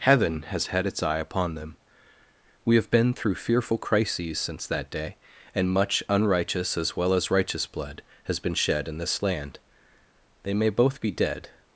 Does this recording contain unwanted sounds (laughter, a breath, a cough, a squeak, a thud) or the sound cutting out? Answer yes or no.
no